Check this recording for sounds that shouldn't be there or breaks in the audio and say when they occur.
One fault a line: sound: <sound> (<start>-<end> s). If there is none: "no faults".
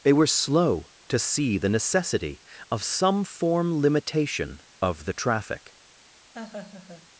sound: laugh (6.3-7.1 s)